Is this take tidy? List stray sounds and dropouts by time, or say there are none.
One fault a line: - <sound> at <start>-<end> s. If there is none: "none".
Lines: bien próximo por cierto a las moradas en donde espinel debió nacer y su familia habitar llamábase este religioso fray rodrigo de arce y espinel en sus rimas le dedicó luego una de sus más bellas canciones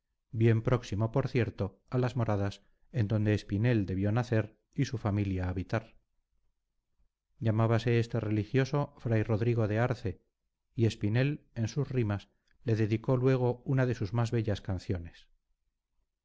none